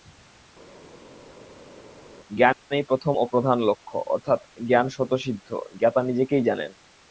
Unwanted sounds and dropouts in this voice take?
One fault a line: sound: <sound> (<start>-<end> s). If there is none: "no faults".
no faults